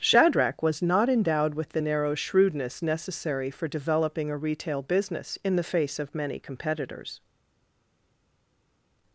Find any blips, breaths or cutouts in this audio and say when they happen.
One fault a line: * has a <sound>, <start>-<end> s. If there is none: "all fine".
all fine